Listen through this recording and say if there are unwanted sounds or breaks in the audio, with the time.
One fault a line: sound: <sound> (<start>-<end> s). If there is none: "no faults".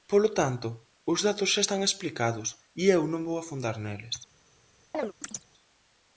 sound: chirp (4.9-5.5 s)